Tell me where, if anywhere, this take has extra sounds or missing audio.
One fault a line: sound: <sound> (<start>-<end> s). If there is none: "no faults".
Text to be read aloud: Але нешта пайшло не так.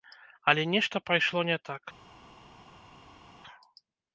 no faults